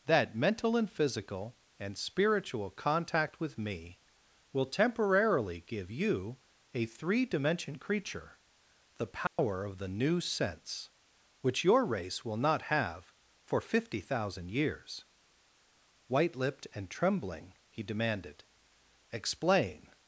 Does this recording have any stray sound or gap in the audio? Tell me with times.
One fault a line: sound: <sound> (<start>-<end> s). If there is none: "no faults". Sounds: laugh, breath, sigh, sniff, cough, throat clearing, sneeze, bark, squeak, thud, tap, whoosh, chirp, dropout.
sound: dropout (9.3-9.4 s)